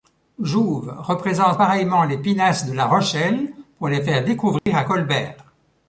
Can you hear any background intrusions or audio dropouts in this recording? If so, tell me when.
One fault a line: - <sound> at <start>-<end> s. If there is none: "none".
- dropout at 4.6-4.7 s